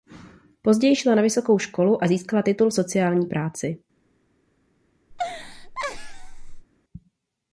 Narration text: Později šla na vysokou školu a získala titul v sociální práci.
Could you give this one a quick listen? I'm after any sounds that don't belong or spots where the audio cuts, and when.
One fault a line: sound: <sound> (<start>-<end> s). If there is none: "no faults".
sound: laugh (5.1-6.7 s)